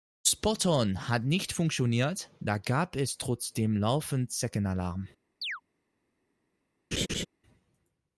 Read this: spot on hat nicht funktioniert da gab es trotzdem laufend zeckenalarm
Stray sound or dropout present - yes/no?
yes